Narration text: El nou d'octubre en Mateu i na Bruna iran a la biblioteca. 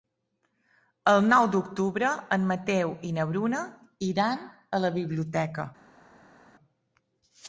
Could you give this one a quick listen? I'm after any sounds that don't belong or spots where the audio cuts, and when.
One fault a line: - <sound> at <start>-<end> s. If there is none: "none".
none